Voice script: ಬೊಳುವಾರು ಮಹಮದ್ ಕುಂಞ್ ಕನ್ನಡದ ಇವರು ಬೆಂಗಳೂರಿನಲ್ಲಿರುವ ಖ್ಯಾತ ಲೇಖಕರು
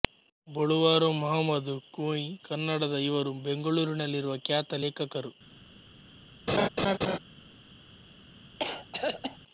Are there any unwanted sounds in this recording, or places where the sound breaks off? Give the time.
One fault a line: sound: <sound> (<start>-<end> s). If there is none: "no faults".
sound: laugh (6.5-7.2 s)
sound: throat clearing (8.6-9.4 s)